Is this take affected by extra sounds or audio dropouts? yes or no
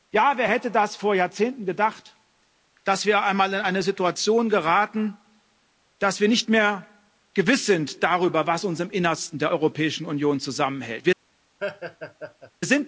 yes